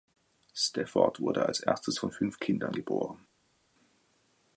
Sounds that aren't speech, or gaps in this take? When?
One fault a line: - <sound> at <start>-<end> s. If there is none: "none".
none